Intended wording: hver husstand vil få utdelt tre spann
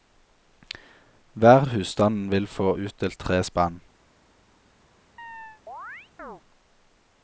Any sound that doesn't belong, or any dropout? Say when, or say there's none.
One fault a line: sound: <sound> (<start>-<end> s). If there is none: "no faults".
sound: chirp (5.2-6.4 s)